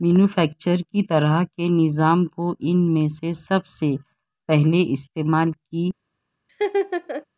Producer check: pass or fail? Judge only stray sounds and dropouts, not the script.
fail